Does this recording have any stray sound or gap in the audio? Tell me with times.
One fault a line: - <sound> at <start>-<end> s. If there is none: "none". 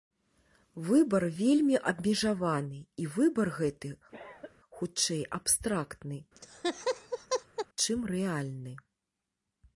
- cough at 4.1-4.5 s
- laugh at 6.4-7.7 s